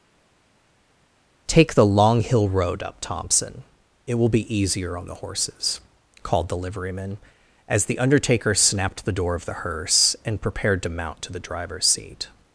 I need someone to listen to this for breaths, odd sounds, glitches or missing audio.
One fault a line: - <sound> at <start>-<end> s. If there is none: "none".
none